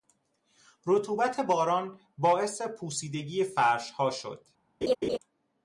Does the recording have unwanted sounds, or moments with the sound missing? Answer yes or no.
yes